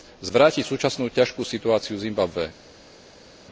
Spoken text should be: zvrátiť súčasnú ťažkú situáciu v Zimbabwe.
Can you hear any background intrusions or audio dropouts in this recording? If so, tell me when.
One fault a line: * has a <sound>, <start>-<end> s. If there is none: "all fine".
all fine